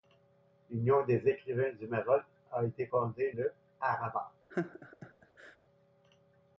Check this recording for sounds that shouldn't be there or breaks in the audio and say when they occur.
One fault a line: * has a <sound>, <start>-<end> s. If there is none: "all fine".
* has a laugh, 4.5-5.6 s